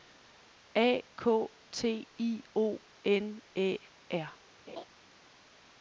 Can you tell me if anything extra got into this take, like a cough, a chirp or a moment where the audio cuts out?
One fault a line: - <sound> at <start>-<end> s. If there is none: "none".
- laugh at 4.7-4.9 s